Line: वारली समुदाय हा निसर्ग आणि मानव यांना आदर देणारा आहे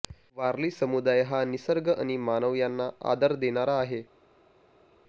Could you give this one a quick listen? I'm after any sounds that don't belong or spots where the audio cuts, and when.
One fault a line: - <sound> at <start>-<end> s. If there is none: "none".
none